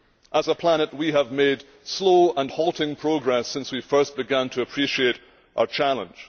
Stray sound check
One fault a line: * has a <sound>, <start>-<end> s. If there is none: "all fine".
all fine